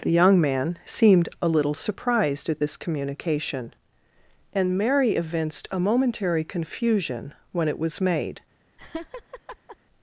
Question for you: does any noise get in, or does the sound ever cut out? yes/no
yes